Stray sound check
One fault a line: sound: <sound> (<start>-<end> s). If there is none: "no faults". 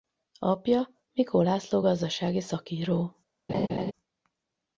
sound: laugh (3.5-3.9 s)